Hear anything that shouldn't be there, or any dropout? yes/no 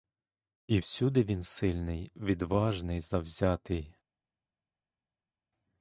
no